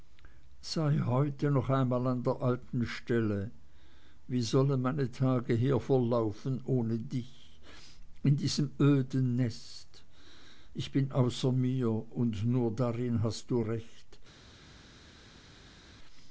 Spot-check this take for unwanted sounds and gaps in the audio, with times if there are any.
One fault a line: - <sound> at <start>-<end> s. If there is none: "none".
none